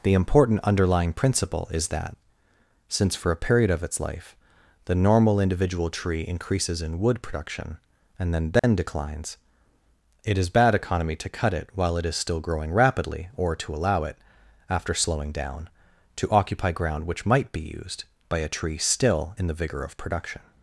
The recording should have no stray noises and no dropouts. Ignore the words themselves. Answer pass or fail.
fail